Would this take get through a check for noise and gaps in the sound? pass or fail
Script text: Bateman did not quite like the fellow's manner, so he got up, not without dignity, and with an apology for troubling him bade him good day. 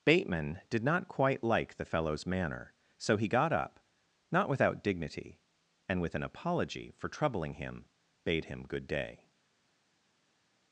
pass